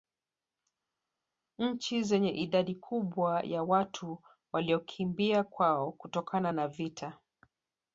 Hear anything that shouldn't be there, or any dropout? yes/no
no